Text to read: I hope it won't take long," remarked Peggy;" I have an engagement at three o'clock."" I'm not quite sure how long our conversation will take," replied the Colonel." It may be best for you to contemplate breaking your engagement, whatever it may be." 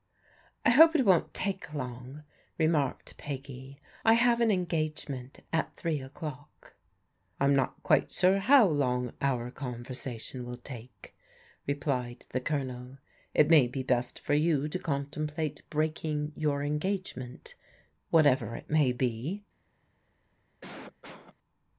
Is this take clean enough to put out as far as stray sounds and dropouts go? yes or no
no